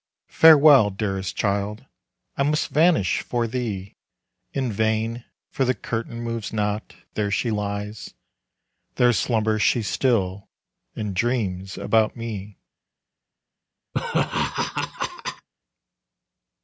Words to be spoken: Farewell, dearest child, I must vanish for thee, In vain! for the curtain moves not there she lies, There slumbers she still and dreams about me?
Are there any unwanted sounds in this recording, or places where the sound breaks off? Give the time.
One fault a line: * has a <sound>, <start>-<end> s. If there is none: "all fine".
* has a laugh, 13.9-15.5 s